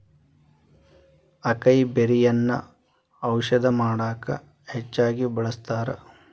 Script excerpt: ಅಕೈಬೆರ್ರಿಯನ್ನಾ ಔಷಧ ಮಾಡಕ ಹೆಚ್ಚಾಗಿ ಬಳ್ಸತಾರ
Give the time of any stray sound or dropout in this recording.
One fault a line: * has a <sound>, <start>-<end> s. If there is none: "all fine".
all fine